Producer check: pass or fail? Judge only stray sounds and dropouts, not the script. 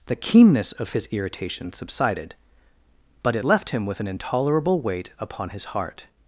pass